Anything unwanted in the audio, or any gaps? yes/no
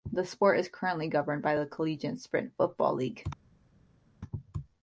no